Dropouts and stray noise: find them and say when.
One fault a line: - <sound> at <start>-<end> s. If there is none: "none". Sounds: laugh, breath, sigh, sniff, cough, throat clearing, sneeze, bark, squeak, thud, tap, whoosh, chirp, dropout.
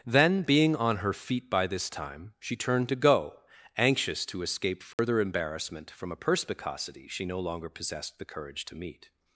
- dropout at 4.9-5.0 s